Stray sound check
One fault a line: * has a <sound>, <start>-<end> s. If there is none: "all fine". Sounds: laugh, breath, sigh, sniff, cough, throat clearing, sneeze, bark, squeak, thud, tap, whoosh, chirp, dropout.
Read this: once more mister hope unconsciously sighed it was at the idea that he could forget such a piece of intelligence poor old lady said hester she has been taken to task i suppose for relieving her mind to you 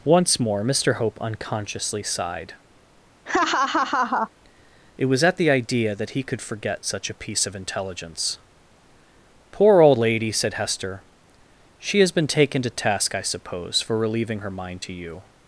* has a laugh, 3.3-4.3 s